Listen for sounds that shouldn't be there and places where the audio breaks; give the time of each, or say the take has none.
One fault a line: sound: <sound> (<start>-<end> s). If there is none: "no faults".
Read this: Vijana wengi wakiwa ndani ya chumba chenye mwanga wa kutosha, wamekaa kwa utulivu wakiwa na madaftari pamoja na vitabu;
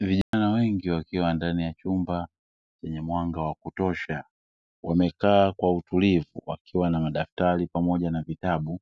sound: dropout (0.2-0.3 s)